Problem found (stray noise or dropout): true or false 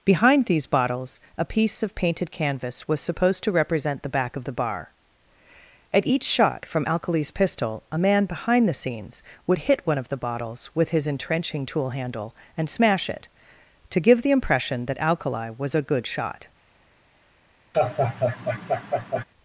true